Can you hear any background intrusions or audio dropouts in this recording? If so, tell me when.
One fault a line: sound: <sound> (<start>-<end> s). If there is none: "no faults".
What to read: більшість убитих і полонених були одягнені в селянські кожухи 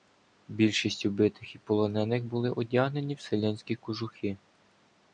no faults